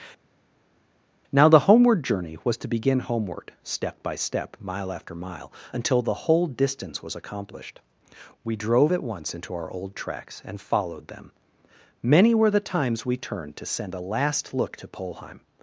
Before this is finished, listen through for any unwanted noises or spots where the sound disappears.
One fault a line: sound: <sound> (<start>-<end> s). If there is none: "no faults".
no faults